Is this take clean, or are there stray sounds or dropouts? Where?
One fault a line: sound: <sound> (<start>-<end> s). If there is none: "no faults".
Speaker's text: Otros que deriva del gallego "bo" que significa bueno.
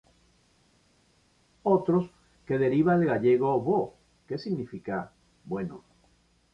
no faults